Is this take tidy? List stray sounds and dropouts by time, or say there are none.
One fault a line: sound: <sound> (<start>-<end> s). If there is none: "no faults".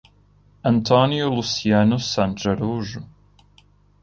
no faults